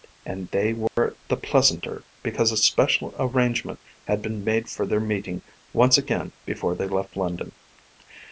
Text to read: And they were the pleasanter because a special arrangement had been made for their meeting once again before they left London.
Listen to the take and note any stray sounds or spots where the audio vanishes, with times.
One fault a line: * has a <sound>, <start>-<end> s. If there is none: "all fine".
* has a dropout, 0.9-1.0 s